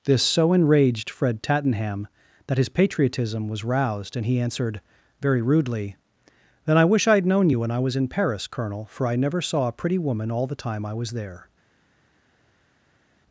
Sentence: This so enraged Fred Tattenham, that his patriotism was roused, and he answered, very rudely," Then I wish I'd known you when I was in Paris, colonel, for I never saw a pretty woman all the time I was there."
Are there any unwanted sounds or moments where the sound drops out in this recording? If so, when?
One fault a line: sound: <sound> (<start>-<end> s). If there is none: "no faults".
no faults